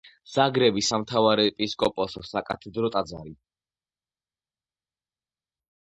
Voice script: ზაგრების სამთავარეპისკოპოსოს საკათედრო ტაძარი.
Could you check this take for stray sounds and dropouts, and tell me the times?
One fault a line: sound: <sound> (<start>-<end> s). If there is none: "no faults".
no faults